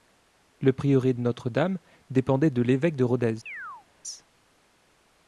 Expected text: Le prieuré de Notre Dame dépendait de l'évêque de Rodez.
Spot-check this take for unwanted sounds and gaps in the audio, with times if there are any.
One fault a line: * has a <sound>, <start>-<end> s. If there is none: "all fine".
* has a chirp, 3.5-3.9 s